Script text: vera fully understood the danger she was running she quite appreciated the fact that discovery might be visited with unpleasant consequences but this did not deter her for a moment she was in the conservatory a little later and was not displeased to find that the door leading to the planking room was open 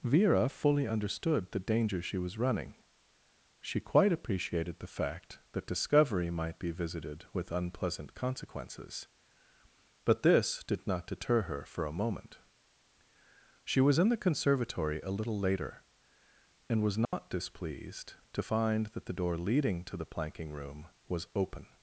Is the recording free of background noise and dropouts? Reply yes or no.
no